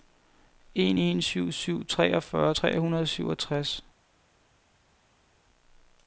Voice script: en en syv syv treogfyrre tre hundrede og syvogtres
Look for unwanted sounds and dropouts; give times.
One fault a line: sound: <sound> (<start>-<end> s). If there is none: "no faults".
no faults